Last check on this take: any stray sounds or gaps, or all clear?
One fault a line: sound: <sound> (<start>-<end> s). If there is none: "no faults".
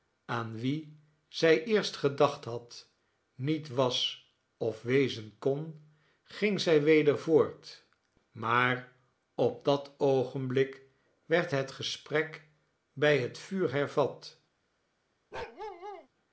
sound: bark (15.3-16.1 s)